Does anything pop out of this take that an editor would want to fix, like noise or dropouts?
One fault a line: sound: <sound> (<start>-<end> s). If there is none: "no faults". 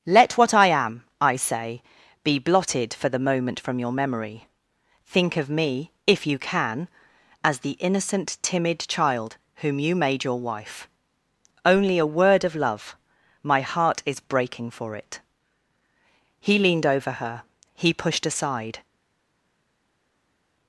no faults